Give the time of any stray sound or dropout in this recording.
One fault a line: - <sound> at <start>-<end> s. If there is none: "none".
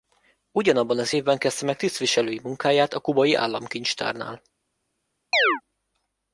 - chirp at 5.3-5.6 s